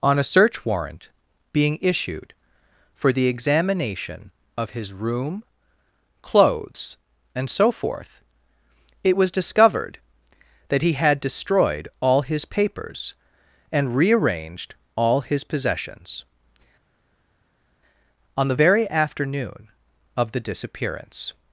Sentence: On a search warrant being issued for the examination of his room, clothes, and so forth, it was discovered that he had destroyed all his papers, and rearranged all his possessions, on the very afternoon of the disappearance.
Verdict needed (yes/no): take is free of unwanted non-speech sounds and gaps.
yes